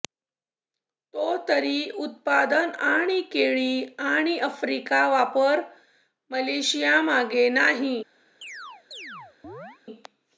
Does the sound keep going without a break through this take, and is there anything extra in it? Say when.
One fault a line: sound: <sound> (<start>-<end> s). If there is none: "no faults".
sound: chirp (8.4-9.8 s)